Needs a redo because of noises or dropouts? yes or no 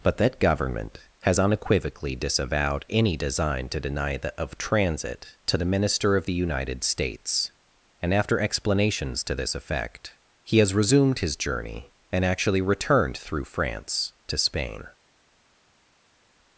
no